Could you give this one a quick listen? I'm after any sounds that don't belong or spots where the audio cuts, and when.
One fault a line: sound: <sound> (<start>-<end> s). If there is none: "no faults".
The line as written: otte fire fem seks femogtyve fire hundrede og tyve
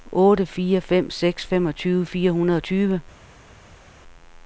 no faults